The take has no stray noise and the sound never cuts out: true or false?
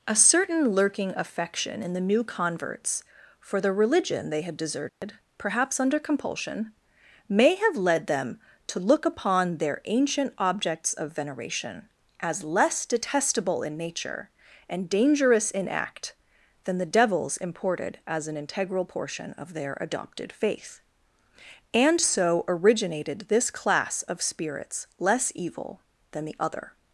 false